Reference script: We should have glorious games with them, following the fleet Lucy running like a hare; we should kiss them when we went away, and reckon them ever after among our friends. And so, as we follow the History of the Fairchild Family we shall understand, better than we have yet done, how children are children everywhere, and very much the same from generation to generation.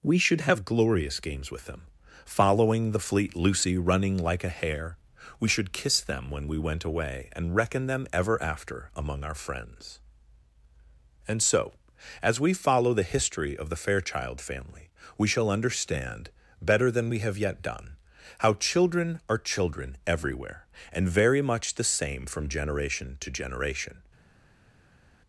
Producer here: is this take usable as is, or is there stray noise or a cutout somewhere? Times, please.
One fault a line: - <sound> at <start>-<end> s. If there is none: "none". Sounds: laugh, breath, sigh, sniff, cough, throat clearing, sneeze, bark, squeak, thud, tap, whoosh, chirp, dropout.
none